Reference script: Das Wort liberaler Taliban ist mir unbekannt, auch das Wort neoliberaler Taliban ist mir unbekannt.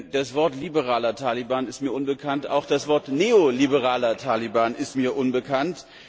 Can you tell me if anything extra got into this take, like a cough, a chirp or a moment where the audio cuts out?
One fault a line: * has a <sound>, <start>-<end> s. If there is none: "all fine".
all fine